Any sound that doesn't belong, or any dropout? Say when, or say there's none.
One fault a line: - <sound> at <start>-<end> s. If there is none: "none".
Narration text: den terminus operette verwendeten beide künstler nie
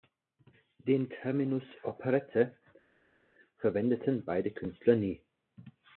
none